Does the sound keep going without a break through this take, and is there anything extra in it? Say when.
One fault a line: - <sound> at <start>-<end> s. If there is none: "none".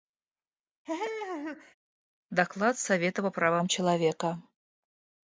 - laugh at 0.8-1.7 s